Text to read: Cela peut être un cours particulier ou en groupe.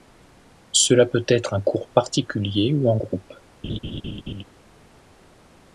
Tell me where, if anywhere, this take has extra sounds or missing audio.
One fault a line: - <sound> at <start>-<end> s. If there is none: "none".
- laugh at 3.6-4.4 s